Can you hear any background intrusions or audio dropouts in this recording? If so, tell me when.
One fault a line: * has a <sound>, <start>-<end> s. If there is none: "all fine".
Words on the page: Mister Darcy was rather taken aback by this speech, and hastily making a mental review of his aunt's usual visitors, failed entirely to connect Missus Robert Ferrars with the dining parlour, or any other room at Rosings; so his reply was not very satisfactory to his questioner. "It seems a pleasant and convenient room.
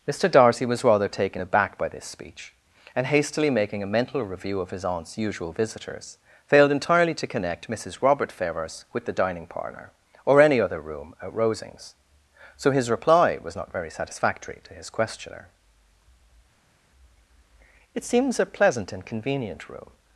all fine